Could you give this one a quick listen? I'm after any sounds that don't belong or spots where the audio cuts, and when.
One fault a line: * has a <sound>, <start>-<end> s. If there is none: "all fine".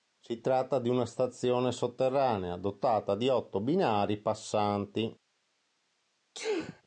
* has a sneeze, 6.3-6.8 s